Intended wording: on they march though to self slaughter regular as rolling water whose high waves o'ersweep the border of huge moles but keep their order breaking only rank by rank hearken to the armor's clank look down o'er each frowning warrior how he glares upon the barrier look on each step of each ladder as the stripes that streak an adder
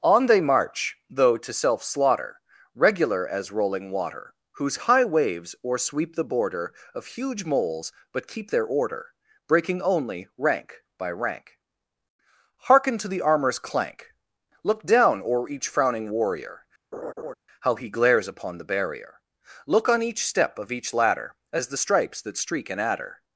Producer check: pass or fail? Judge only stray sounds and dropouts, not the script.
fail